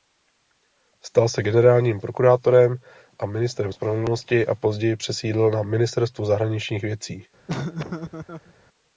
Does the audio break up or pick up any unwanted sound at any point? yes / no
yes